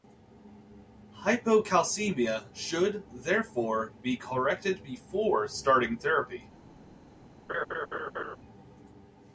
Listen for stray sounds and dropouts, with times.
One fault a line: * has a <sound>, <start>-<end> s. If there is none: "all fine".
* has a laugh, 7.5-8.4 s